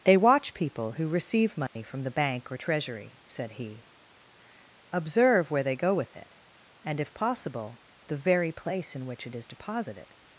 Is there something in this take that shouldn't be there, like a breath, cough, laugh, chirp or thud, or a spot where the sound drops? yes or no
yes